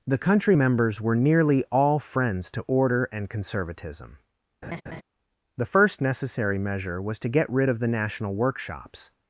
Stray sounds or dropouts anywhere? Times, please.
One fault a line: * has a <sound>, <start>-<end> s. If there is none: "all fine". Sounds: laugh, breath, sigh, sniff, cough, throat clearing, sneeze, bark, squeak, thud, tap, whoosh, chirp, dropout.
* has a laugh, 4.6-5.0 s